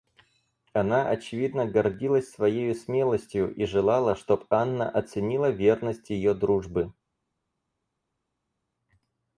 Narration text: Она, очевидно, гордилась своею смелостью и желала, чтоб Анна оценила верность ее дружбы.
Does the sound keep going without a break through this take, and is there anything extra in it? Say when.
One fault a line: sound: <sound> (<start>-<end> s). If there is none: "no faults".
no faults